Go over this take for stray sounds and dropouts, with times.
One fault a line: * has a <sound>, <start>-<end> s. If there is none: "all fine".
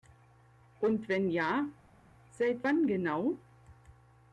all fine